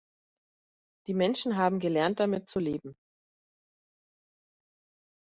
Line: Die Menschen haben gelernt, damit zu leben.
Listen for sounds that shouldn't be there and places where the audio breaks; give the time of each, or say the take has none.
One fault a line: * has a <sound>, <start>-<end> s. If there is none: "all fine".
all fine